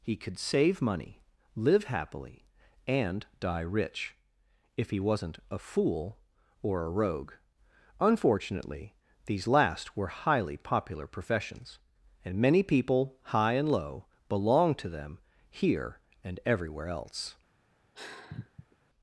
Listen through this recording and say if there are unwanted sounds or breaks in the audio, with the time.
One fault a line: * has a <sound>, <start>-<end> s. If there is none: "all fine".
* has a sigh, 17.9-18.8 s